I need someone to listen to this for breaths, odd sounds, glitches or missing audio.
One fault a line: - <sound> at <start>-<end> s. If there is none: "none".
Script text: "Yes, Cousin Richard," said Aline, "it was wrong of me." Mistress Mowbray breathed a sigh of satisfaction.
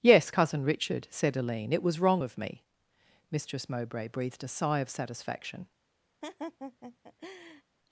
- laugh at 6.2-7.6 s